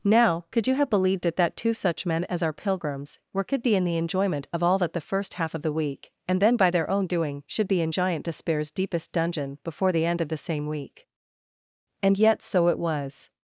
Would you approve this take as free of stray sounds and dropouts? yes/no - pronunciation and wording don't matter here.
yes